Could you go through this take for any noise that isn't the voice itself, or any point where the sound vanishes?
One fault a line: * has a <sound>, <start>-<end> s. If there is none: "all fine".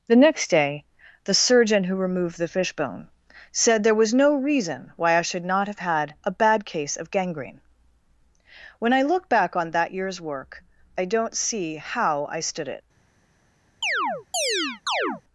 * has a chirp, 13.8-15.2 s